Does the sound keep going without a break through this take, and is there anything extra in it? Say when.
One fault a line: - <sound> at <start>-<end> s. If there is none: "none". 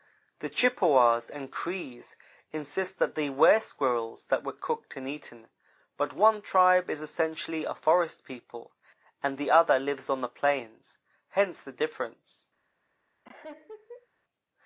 - laugh at 13.2-14.1 s